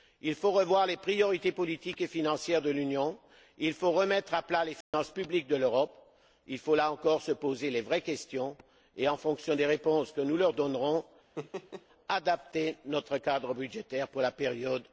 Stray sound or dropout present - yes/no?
yes